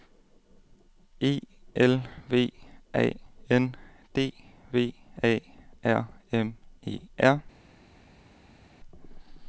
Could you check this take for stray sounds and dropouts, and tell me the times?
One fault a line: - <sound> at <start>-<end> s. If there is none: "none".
none